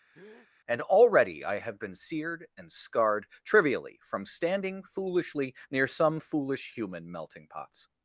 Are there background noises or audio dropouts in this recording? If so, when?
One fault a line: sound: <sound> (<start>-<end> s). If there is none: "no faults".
sound: breath (0.1-0.5 s)